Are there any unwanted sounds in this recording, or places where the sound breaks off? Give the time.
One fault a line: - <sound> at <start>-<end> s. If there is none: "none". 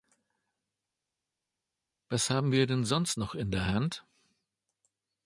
none